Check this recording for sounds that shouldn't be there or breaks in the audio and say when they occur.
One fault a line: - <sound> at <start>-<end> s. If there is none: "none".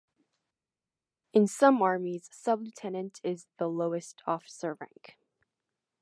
none